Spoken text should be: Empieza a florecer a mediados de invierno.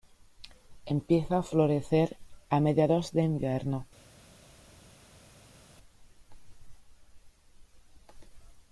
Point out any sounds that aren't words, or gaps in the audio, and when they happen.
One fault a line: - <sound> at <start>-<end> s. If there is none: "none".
none